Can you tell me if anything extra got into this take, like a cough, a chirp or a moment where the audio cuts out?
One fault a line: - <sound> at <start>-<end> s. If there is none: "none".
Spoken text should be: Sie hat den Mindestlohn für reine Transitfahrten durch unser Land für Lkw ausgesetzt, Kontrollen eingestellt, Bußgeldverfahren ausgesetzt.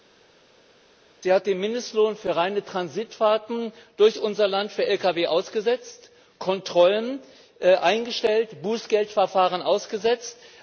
none